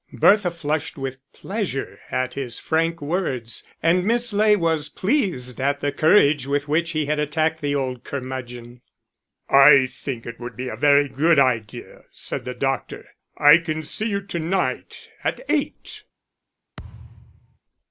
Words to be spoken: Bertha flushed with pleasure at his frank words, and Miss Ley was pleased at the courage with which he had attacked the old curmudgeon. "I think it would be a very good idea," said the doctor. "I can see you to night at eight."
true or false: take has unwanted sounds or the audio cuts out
true